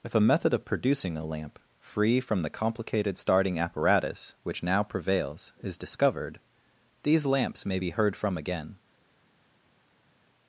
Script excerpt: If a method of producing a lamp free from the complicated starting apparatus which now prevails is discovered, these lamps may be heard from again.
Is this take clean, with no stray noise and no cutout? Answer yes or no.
yes